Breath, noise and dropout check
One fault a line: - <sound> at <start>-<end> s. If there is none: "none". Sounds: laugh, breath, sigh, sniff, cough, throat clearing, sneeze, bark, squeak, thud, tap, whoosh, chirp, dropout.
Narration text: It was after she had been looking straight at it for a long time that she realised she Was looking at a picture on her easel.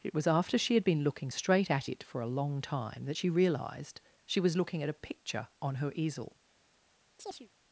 - chirp at 7.2-7.5 s